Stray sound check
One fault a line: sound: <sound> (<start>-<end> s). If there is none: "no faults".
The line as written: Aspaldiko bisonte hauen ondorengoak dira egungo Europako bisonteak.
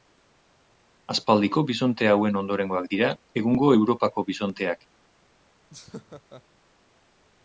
sound: laugh (5.7-6.4 s)